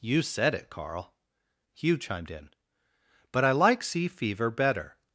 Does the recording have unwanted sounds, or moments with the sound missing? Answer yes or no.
no